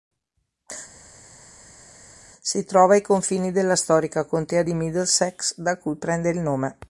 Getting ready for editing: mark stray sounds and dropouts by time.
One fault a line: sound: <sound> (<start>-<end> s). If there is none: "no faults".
no faults